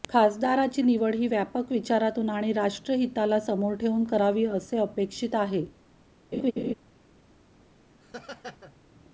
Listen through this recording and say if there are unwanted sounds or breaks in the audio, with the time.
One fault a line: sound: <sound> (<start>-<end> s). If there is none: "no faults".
sound: laugh (6.3-6.7 s)
sound: laugh (8.0-8.8 s)